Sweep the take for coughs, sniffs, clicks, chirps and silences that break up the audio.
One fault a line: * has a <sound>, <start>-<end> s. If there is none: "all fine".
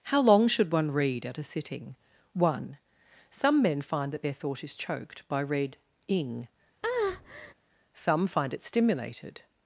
* has a breath, 6.8-7.5 s